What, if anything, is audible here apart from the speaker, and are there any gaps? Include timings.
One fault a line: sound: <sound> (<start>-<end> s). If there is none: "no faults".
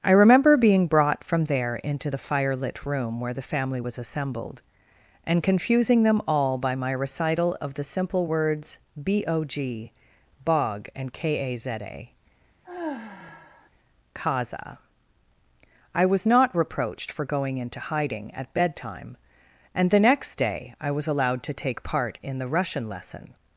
sound: sigh (12.6-13.7 s)